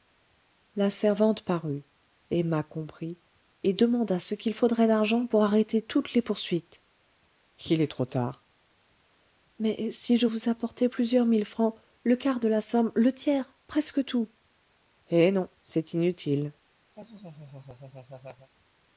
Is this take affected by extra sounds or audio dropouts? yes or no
yes